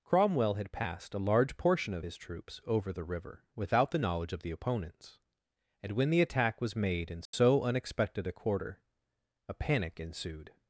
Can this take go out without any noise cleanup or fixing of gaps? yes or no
no